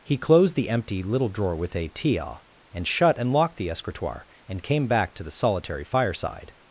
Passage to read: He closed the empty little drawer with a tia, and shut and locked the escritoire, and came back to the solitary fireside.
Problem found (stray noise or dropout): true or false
false